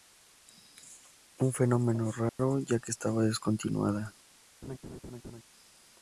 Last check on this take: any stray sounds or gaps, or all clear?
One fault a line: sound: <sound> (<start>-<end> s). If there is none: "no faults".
sound: dropout (2.3-2.4 s)
sound: laugh (4.6-5.4 s)